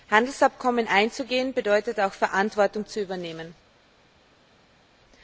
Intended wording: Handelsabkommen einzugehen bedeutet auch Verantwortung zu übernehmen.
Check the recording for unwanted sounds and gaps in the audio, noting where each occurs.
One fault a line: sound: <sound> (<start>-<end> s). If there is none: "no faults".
no faults